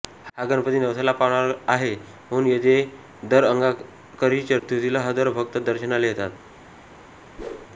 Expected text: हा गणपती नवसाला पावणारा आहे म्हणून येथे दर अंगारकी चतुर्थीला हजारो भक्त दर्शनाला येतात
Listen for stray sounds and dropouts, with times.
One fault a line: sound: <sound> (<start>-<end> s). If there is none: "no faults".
sound: dropout (4.6-4.6 s)
sound: whoosh (7.4-7.7 s)